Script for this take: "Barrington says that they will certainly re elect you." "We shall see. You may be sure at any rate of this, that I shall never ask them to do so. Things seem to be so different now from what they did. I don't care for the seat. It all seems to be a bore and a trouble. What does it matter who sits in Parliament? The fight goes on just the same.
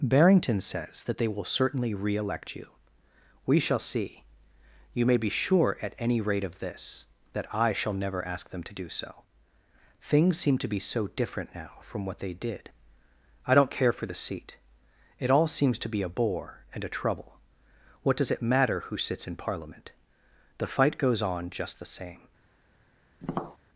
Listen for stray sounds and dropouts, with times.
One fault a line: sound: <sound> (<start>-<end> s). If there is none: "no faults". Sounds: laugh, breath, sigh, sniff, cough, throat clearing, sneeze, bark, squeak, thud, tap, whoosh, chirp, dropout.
sound: tap (23.2-23.6 s)